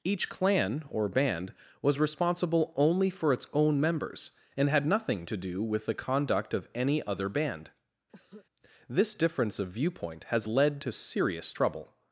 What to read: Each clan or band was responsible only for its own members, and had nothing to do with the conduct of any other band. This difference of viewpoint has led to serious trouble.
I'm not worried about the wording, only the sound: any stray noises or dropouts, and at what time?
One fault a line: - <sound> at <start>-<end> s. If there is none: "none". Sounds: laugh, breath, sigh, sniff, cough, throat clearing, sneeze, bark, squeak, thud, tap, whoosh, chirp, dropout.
- cough at 8.1-8.5 s